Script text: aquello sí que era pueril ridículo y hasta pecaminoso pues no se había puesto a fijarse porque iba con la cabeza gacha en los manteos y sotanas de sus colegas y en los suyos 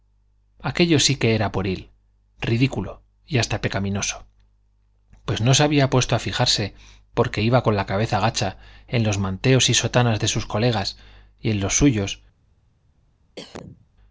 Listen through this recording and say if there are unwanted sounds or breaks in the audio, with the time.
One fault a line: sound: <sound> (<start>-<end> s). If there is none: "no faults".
sound: cough (13.4-13.9 s)